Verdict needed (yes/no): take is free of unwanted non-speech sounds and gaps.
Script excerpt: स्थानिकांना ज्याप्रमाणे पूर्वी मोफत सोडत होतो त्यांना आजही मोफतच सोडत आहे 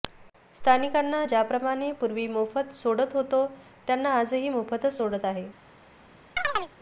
no